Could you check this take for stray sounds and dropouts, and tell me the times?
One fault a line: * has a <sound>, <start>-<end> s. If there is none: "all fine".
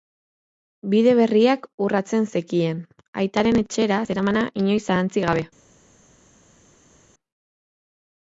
all fine